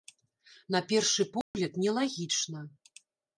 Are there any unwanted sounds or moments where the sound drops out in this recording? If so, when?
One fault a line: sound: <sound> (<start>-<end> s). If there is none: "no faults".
sound: dropout (1.4-1.5 s)